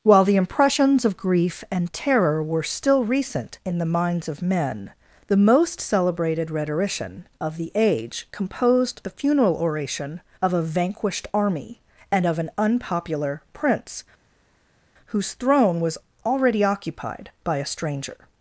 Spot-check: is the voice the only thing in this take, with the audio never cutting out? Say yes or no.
yes